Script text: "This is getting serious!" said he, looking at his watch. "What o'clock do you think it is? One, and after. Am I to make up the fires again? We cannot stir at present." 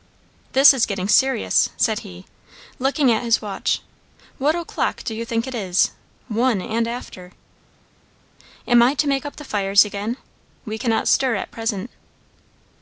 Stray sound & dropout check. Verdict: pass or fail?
pass